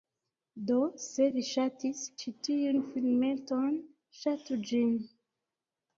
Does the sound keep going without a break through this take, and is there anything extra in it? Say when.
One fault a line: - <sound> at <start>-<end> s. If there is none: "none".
none